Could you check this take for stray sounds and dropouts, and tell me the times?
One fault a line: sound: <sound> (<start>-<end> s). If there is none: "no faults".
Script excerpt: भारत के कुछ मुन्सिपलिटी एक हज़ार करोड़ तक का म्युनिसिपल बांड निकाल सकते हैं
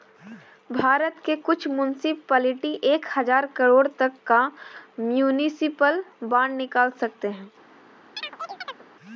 sound: chirp (8.2-8.8 s)